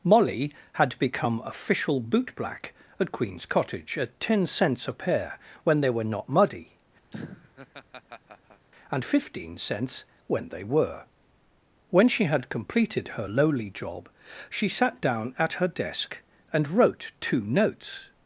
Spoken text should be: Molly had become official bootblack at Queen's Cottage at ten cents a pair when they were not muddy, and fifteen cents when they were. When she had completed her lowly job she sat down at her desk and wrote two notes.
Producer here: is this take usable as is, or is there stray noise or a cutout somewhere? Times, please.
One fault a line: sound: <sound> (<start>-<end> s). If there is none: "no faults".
sound: laugh (7.1-8.7 s)